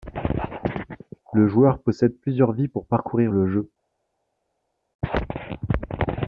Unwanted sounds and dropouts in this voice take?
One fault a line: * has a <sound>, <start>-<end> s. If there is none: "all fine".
all fine